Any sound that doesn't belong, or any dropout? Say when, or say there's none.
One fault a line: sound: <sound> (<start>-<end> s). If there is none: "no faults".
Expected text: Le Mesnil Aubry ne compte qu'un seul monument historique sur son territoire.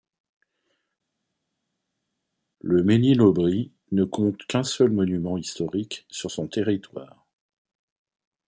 no faults